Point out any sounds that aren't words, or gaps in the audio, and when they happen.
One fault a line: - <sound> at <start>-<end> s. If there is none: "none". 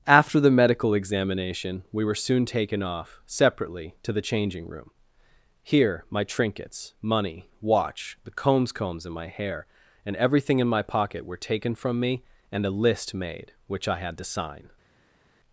none